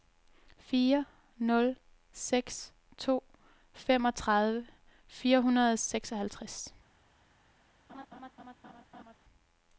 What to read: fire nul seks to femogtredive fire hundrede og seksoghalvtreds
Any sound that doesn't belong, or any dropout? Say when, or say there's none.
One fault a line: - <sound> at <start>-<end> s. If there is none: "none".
- laugh at 7.9-9.2 s